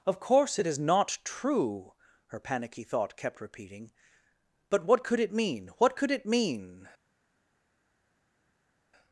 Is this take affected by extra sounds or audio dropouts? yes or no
no